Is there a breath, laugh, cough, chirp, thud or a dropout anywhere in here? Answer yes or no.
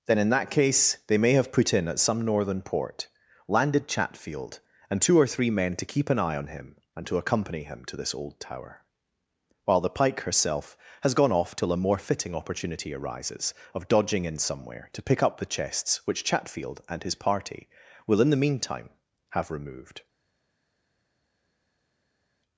no